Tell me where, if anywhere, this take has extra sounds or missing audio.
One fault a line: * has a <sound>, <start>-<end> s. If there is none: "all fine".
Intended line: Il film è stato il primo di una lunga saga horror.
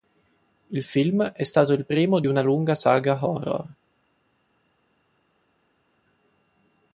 all fine